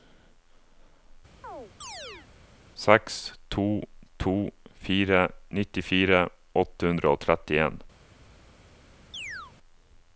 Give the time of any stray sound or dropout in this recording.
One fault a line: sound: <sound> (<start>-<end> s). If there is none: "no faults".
sound: chirp (1.4-2.3 s)
sound: chirp (9.1-9.5 s)